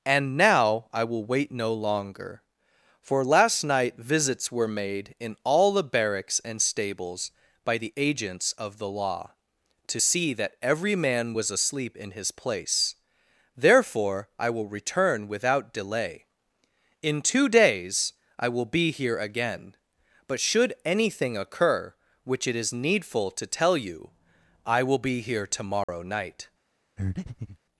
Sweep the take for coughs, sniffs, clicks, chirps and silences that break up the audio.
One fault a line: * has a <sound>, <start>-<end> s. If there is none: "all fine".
* has a dropout, 25.8-25.9 s
* has a breath, 27.0-27.6 s